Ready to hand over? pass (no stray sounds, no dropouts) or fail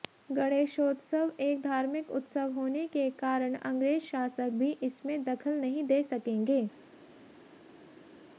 pass